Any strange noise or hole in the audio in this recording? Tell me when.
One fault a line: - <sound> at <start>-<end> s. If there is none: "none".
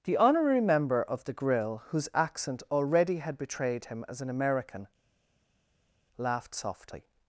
none